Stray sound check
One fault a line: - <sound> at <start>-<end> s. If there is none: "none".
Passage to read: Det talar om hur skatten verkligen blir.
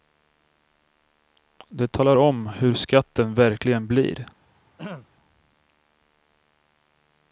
- throat clearing at 4.8-5.1 s